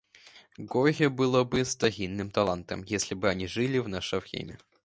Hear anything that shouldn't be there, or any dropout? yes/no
no